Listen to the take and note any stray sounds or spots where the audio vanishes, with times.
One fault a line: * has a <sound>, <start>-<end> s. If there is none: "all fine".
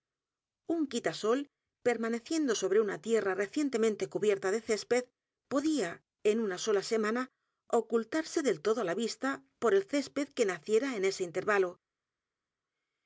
all fine